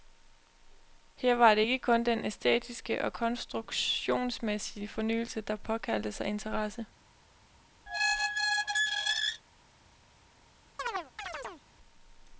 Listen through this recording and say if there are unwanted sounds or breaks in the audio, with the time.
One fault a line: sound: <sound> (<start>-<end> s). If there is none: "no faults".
sound: squeak (7.9-9.4 s)
sound: chirp (10.8-11.6 s)